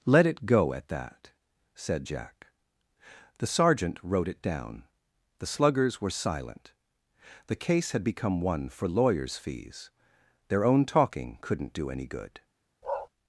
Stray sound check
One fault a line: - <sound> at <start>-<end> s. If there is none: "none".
- bark at 12.8-13.1 s